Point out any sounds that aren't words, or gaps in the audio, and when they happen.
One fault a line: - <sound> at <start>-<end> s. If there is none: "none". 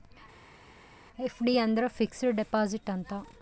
none